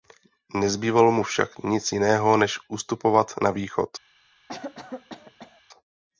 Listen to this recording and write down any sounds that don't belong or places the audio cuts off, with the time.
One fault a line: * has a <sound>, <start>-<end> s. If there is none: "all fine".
* has a cough, 4.5-5.6 s